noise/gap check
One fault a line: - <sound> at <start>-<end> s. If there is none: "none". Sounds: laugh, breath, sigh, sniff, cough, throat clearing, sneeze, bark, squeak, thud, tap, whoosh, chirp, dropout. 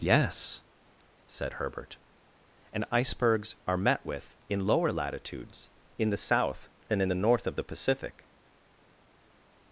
none